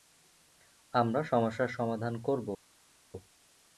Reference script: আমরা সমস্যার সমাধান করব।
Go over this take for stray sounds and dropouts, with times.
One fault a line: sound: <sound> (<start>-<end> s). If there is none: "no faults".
no faults